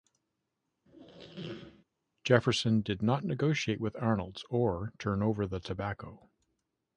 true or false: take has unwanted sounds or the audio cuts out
true